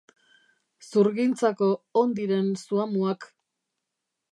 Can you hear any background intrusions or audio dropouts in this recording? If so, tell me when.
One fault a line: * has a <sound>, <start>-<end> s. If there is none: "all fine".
all fine